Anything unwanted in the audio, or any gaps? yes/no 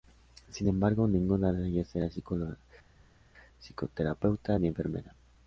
no